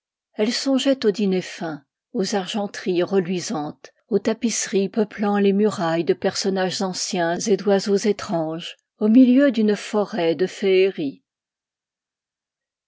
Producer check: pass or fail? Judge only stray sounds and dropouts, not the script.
pass